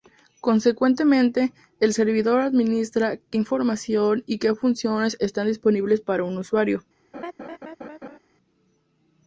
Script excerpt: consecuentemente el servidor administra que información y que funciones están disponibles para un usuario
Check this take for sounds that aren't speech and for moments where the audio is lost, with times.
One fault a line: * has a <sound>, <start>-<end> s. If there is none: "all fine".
* has a laugh, 7.1-8.2 s